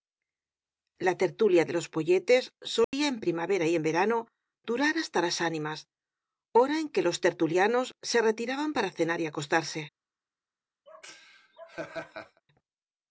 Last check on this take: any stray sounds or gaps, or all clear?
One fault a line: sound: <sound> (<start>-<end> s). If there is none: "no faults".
sound: dropout (2.8-2.9 s)
sound: laugh (10.9-12.4 s)